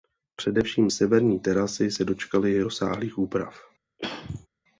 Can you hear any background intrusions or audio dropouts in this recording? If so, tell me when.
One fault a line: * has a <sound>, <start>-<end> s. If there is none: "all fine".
* has a throat clearing, 4.0-4.5 s